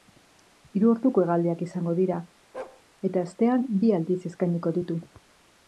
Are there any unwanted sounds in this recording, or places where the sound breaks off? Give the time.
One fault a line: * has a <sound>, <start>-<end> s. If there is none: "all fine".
* has a bark, 2.5-2.8 s